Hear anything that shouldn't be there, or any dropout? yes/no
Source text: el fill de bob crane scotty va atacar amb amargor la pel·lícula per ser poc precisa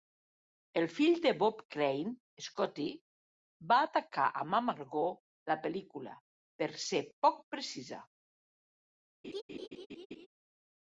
yes